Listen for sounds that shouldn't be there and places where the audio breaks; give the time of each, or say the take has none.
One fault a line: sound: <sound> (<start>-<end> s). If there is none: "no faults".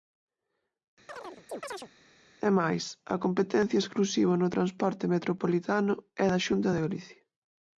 sound: chirp (1.1-1.9 s)